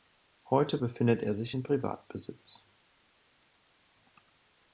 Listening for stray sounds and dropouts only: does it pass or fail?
pass